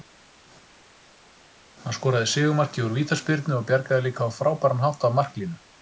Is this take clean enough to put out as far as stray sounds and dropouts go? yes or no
yes